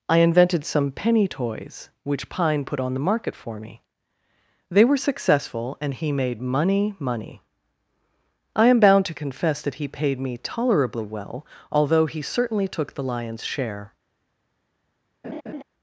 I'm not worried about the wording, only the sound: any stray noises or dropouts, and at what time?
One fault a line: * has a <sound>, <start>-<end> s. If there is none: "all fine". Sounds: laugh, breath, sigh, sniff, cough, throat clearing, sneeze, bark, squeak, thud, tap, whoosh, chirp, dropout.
* has a laugh, 15.2-15.6 s